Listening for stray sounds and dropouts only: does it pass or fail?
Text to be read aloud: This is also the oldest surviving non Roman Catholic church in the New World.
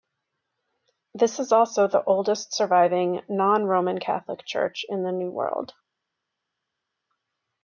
pass